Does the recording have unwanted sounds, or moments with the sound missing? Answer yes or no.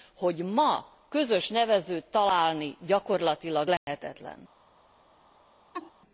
yes